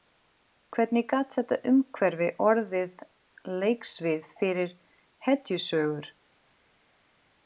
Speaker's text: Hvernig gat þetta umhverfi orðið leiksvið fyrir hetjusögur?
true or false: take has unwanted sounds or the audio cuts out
false